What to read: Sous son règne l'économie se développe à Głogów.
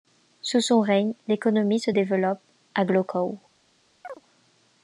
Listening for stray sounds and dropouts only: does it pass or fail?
fail